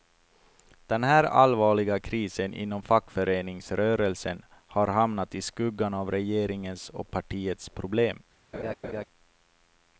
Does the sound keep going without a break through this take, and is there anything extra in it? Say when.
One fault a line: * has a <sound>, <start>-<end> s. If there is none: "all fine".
* has a laugh, 8.5-9.0 s